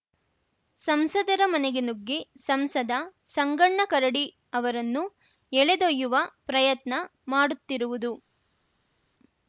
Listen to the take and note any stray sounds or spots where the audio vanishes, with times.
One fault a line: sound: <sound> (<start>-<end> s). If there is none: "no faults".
no faults